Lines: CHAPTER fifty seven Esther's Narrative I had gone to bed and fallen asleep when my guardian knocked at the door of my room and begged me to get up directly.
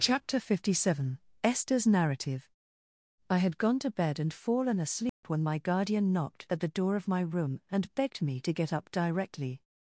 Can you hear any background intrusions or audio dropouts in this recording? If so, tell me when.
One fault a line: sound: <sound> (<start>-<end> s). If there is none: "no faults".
sound: dropout (5.1-5.2 s)